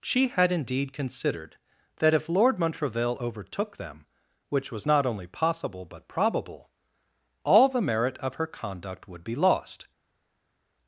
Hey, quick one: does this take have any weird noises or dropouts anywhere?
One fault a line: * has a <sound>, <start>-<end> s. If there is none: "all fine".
all fine